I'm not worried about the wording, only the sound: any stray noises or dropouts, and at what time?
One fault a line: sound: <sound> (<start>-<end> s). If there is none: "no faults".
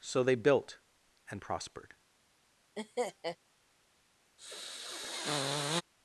sound: laugh (2.8-3.4 s)
sound: sniff (4.4-5.8 s)